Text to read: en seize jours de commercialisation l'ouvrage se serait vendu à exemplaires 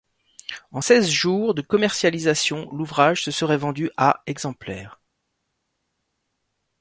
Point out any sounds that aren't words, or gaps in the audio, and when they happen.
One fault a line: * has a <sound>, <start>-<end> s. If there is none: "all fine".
all fine